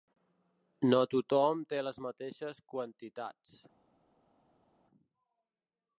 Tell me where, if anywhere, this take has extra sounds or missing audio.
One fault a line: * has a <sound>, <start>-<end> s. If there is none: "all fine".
all fine